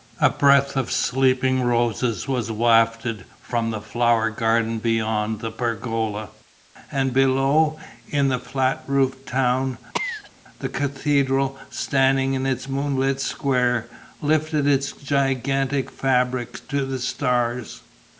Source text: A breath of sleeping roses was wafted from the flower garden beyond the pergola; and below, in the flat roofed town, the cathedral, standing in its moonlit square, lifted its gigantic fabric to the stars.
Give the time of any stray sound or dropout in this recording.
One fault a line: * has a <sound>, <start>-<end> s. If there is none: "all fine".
* has a cough, 9.9-10.3 s